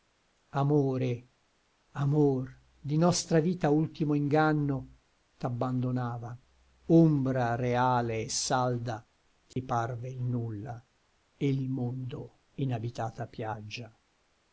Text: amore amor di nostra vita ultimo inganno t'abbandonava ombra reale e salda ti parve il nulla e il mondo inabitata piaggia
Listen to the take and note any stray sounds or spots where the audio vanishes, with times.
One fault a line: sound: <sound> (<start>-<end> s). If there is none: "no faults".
sound: dropout (9.5-9.6 s)